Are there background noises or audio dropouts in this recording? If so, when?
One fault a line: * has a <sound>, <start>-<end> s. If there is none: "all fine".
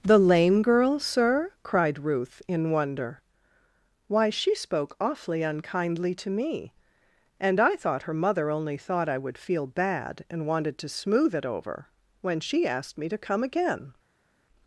all fine